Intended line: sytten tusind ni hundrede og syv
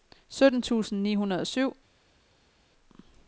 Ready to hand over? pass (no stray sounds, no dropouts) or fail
pass